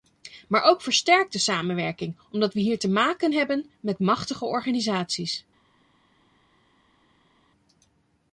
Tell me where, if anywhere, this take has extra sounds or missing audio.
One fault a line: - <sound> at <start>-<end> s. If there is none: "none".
none